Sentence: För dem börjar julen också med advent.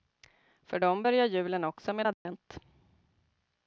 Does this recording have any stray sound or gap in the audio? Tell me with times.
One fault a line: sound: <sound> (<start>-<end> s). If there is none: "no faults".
sound: dropout (2.1-2.3 s)